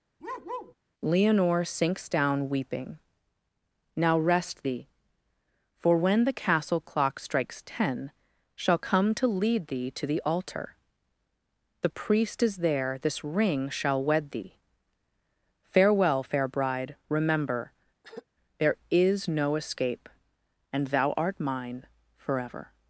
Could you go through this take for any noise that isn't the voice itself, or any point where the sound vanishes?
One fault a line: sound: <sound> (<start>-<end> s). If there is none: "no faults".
sound: bark (0.2-0.7 s)
sound: throat clearing (18.0-18.3 s)